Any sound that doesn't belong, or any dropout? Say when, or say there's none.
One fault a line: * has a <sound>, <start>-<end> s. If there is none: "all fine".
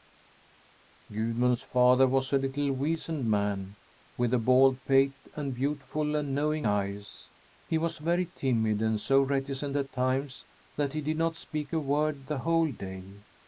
all fine